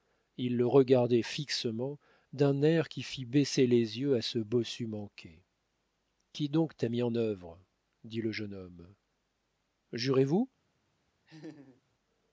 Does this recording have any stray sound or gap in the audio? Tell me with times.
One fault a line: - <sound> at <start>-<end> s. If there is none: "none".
- laugh at 11.3-11.8 s